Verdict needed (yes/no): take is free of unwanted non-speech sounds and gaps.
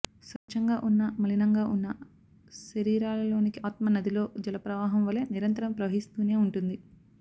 no